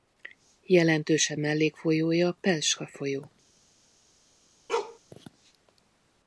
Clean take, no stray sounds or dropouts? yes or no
no